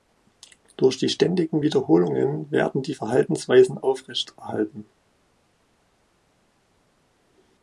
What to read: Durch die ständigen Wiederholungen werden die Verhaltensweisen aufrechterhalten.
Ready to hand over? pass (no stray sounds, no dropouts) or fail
pass